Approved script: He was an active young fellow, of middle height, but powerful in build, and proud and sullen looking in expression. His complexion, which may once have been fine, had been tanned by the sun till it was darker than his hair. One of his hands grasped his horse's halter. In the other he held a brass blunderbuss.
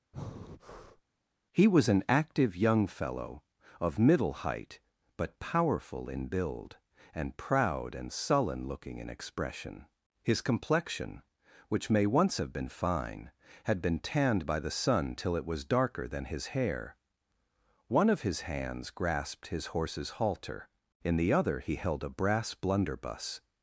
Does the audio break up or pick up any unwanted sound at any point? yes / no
yes